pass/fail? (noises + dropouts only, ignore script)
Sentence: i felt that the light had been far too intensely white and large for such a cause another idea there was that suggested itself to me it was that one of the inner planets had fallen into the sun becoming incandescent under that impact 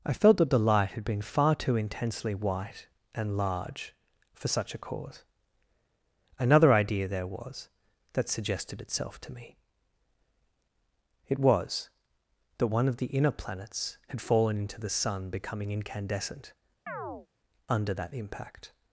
fail